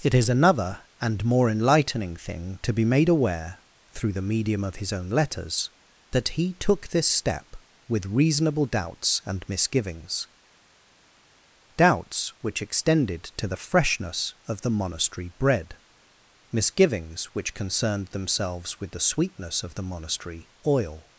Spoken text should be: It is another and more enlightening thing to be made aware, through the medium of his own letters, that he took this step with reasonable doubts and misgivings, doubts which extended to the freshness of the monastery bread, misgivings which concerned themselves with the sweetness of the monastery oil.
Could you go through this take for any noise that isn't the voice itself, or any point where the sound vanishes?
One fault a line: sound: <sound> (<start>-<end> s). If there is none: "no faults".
no faults